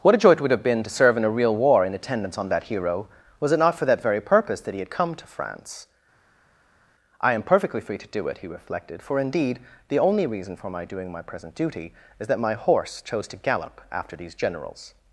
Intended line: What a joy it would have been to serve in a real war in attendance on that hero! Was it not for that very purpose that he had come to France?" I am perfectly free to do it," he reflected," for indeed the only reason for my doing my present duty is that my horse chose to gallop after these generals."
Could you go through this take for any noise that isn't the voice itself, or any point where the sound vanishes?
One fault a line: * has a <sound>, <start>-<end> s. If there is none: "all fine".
all fine